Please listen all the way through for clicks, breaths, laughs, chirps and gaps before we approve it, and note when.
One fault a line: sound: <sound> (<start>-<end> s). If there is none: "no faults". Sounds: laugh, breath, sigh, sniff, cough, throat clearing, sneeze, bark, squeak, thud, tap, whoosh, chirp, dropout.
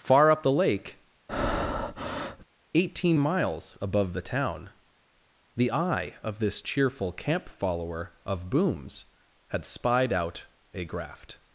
sound: breath (1.3-2.5 s)